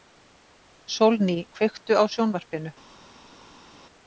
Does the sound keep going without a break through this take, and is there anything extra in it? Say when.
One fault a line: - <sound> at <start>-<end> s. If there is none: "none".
none